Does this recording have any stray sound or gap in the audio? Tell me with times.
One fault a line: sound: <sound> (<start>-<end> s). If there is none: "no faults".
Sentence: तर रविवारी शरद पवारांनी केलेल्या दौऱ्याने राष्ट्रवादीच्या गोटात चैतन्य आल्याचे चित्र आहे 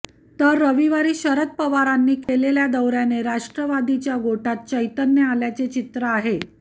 sound: dropout (2.2-2.3 s)